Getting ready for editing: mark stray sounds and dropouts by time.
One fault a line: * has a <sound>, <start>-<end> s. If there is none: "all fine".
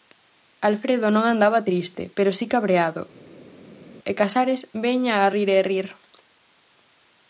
all fine